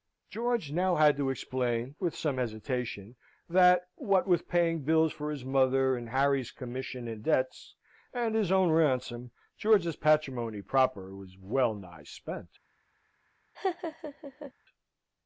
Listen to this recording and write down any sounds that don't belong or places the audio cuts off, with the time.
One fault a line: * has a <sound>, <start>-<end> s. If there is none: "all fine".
* has a laugh, 13.5-14.5 s